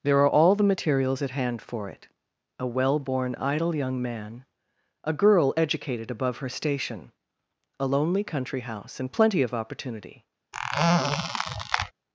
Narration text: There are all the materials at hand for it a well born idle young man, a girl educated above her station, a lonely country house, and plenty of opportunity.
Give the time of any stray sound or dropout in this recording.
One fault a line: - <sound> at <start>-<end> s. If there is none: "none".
- squeak at 10.5-11.9 s